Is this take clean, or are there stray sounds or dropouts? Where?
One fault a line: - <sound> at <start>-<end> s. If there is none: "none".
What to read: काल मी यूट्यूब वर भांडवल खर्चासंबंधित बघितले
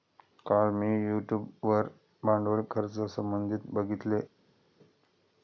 none